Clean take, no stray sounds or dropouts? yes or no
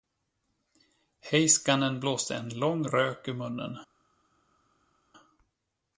yes